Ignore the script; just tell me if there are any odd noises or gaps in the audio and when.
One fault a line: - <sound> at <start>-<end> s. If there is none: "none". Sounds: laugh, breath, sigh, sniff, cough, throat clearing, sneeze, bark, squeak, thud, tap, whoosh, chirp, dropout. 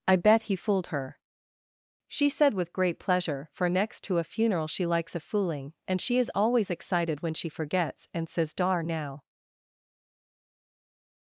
none